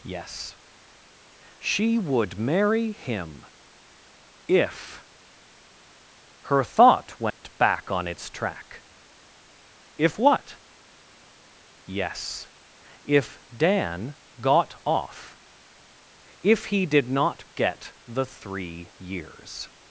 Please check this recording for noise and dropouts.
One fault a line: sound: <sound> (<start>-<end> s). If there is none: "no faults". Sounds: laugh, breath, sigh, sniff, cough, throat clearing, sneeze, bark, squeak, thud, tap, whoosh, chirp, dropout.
sound: dropout (7.3-7.4 s)